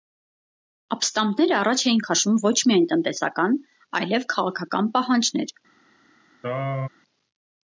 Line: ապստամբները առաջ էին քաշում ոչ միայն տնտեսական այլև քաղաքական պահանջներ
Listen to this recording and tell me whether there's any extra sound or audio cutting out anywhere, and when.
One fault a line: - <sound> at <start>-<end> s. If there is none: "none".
- throat clearing at 6.4-6.9 s